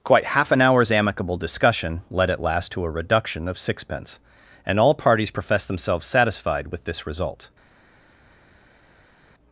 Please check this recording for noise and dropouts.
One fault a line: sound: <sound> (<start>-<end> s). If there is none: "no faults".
no faults